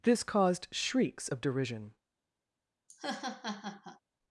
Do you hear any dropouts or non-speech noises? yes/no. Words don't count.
yes